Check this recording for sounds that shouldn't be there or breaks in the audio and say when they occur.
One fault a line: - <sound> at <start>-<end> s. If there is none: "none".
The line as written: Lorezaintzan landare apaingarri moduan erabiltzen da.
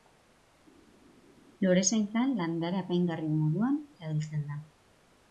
none